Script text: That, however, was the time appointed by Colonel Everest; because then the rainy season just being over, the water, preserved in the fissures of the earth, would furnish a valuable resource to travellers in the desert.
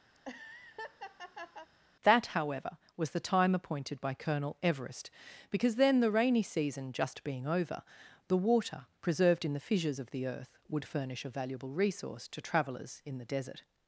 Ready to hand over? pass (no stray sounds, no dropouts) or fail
fail